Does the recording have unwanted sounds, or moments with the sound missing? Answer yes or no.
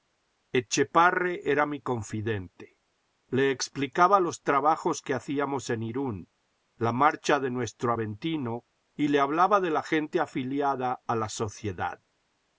no